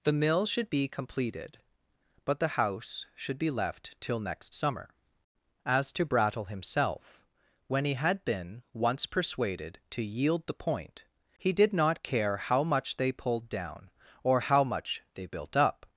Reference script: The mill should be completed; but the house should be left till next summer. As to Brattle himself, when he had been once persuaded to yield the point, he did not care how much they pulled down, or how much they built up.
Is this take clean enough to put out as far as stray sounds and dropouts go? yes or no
yes